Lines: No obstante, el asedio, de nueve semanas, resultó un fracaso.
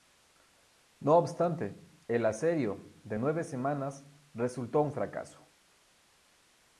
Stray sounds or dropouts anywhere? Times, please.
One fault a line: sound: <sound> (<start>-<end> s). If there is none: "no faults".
no faults